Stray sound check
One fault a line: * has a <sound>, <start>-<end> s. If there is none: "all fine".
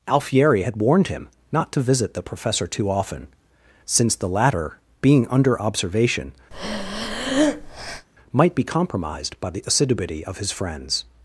* has a breath, 6.5-8.1 s